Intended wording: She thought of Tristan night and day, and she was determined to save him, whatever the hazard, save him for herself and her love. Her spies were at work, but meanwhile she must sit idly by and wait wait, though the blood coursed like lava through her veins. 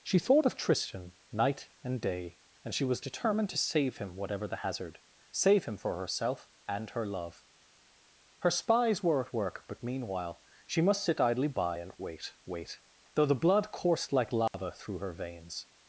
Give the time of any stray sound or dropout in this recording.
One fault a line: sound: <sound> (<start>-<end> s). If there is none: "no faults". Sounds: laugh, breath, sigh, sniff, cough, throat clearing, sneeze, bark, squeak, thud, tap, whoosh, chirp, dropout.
sound: dropout (14.5-14.5 s)